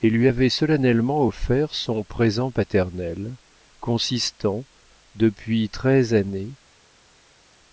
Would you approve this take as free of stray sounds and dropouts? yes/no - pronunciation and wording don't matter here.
yes